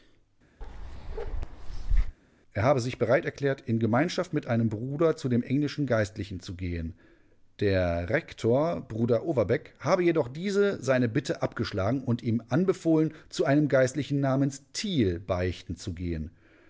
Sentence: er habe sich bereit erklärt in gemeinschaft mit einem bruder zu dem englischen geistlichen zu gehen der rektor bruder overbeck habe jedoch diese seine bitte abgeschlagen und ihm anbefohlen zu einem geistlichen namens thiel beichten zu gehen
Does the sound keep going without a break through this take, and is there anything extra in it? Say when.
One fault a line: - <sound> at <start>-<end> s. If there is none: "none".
- bark at 0.6-2.2 s